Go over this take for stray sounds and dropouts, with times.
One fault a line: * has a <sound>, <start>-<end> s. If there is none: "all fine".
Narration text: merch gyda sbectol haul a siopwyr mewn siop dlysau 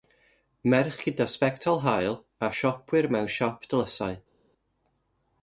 all fine